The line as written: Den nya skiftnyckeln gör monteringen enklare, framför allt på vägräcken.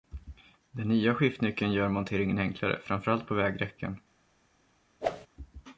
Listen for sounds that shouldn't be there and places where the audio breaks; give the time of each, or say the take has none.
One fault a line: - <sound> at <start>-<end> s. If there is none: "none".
- whoosh at 5.0-5.3 s